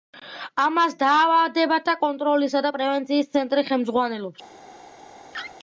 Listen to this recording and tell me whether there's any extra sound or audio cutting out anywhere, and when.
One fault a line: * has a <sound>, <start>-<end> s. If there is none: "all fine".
* has a laugh, 5.3-5.6 s